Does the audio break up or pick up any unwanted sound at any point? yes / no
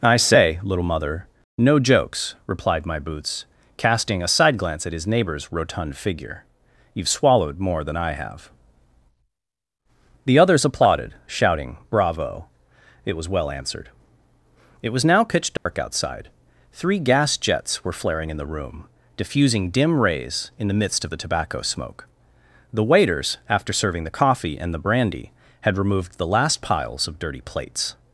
yes